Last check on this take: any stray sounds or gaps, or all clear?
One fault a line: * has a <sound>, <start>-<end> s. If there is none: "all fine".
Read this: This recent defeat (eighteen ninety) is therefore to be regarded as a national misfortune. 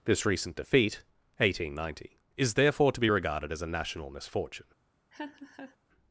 * has a laugh, 5.1-5.8 s